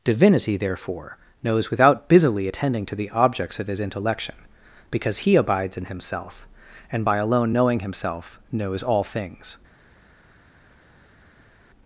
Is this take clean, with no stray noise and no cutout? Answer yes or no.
yes